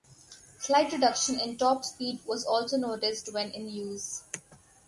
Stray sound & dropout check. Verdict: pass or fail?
pass